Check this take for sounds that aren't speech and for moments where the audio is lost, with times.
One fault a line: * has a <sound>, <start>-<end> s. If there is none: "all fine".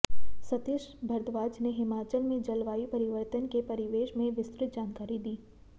all fine